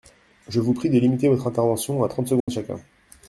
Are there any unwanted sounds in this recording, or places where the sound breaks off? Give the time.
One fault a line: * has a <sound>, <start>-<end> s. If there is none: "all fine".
* has a dropout, 2.4-2.5 s